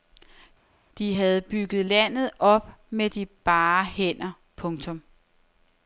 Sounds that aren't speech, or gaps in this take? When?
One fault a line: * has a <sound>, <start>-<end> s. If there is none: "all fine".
all fine